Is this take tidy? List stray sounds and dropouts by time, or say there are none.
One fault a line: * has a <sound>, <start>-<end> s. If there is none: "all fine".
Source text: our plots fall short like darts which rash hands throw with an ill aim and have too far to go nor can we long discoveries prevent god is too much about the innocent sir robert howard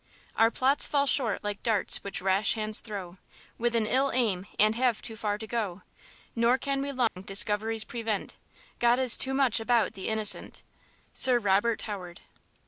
* has a dropout, 7.1-7.2 s